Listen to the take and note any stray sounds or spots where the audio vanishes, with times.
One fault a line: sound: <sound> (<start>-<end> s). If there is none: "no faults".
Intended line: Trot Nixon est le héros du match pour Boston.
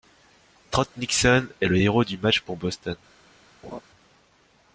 sound: laugh (3.6-3.8 s)